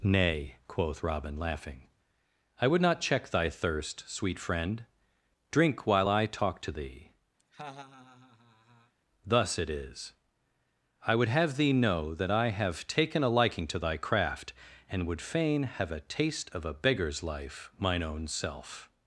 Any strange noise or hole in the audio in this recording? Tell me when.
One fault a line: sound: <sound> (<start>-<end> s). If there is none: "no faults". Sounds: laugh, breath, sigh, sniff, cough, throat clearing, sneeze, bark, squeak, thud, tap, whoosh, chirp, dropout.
sound: laugh (7.4-8.9 s)